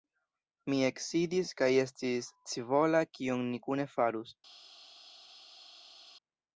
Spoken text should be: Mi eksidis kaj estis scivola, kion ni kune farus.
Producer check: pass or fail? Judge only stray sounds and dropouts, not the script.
pass